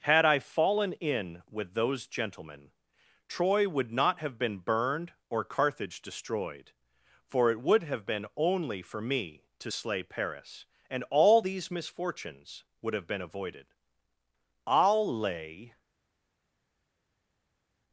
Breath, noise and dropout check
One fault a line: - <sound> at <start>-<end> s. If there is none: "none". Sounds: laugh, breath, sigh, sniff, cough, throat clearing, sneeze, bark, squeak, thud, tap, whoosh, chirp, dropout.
none